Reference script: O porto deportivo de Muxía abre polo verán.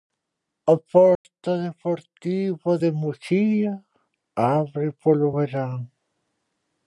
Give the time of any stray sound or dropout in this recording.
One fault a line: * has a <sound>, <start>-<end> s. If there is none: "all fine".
* has a dropout, 1.2-1.2 s